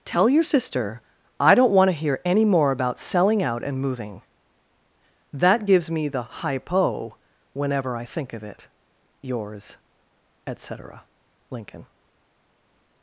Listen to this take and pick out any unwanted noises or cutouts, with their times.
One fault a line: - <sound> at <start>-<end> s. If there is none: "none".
none